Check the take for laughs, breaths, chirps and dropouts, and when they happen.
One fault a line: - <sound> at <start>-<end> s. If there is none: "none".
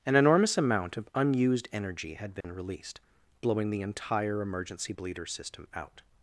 - dropout at 2.4-2.4 s